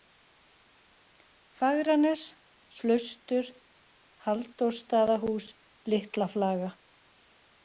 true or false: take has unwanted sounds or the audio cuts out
false